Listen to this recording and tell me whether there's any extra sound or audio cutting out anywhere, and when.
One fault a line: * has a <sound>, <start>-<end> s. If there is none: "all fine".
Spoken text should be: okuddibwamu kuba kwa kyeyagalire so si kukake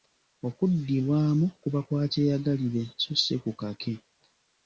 all fine